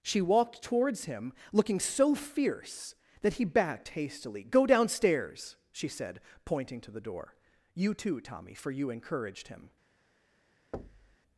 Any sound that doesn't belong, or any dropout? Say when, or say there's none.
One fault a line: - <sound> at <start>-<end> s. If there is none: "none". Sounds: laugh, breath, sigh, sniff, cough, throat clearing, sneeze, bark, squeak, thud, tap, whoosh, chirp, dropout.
- thud at 10.7-11.2 s